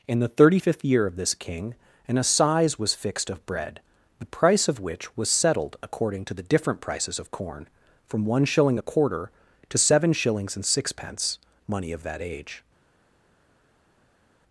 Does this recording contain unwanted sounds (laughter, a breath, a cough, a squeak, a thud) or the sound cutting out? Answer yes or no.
no